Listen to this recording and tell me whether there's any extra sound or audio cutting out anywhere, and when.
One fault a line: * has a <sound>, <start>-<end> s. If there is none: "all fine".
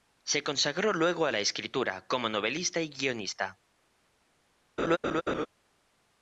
* has a laugh, 4.8-5.5 s